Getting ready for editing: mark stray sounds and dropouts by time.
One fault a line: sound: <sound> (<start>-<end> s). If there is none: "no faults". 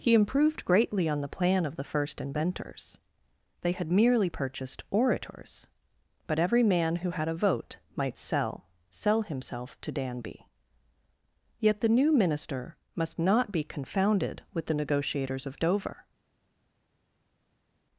no faults